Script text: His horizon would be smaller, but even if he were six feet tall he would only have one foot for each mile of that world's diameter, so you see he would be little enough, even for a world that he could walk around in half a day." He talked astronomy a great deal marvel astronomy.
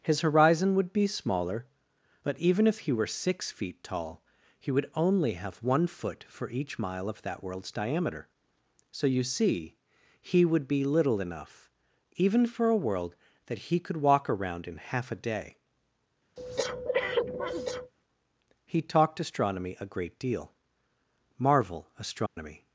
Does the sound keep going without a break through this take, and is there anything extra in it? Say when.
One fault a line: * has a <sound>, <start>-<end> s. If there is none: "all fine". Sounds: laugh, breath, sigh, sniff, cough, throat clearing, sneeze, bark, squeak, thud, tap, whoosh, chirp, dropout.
* has a breath, 16.4-17.9 s
* has a dropout, 22.3-22.4 s